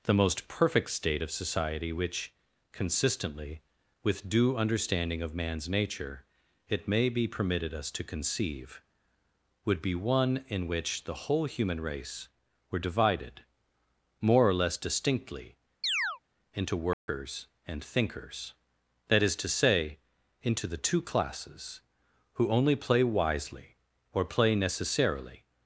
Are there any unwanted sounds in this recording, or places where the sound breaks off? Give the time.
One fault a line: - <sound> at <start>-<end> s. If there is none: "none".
- chirp at 15.8-16.2 s
- dropout at 16.9-17.1 s